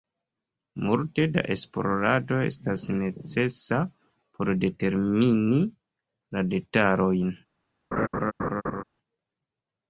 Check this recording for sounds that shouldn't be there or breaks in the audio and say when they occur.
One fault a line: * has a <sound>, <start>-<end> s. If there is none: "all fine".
* has a laugh, 7.9-8.8 s